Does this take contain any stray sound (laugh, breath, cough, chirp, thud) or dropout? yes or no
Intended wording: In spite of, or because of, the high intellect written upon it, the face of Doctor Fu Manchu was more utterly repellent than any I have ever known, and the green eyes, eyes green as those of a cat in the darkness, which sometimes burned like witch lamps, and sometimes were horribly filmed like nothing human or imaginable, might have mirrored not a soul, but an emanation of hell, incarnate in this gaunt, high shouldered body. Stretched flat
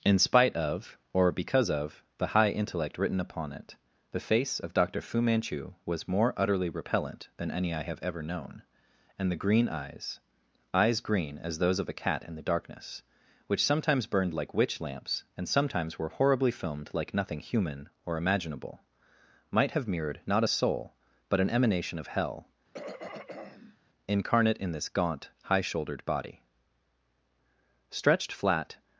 yes